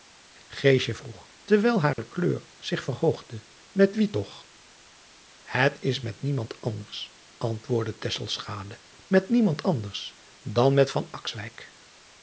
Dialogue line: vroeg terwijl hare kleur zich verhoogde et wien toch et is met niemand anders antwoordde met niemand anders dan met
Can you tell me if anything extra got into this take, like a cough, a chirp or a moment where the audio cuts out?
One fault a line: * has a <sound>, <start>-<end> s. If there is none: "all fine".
* has a dropout, 1.9-2.0 s